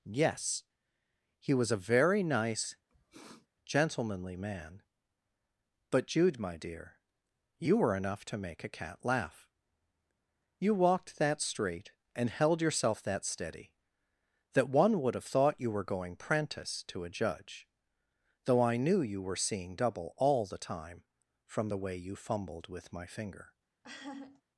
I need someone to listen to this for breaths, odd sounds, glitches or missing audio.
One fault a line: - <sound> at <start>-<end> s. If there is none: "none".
- sniff at 2.9-3.5 s
- laugh at 23.8-24.4 s